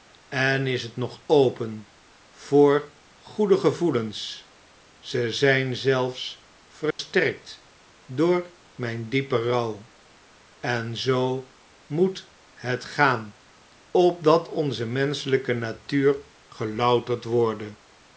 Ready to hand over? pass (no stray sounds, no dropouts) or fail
fail